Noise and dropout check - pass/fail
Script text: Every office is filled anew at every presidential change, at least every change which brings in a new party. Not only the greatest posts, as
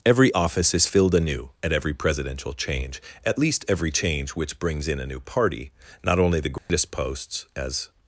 fail